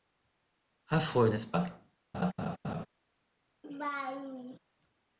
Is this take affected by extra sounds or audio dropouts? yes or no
yes